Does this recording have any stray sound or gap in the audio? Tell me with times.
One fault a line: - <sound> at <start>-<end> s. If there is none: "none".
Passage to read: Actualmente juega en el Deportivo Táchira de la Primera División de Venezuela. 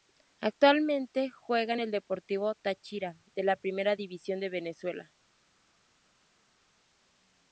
none